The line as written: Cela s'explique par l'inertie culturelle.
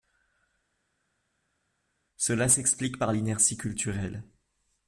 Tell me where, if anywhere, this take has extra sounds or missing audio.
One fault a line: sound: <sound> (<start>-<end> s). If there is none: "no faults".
no faults